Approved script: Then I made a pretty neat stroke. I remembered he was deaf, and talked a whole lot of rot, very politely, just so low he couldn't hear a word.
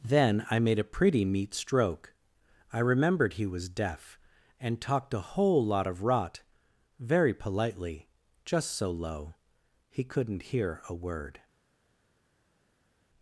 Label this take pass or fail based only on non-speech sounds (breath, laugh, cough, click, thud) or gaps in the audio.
pass